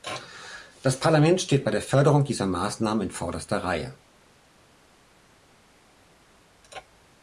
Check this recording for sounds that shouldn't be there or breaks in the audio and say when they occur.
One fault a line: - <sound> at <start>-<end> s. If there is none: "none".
none